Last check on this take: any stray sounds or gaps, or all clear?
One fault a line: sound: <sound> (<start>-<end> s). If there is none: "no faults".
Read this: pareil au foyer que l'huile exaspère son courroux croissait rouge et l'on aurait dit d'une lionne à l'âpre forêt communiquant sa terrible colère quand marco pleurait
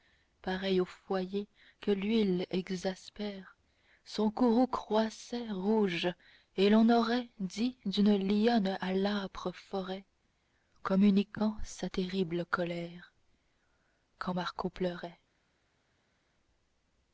no faults